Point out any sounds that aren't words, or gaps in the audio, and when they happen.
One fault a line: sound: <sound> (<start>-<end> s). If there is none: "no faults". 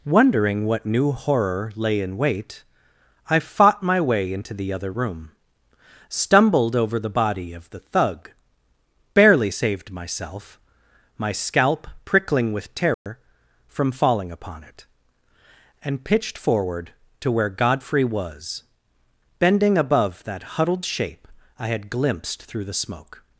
sound: dropout (12.9-13.1 s)